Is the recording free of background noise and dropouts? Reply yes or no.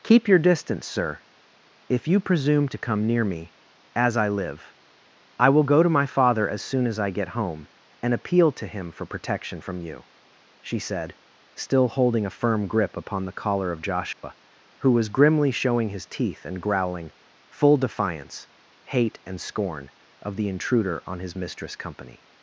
no